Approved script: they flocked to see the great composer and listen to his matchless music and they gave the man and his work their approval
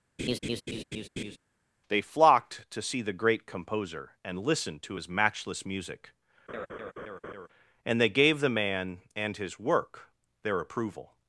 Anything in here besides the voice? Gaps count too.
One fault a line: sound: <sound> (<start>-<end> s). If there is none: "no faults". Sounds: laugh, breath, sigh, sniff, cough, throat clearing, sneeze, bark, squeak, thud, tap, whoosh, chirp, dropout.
sound: laugh (0.2-1.4 s)
sound: laugh (6.5-7.5 s)